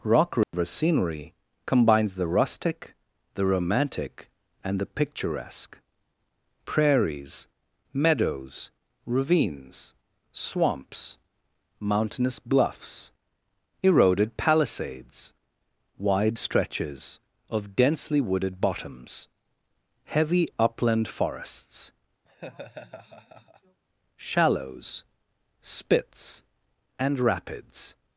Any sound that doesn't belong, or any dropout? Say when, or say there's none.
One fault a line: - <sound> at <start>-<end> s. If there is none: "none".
- dropout at 0.4-0.5 s
- laugh at 22.3-23.8 s